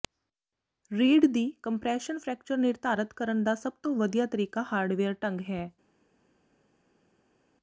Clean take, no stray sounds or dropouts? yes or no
yes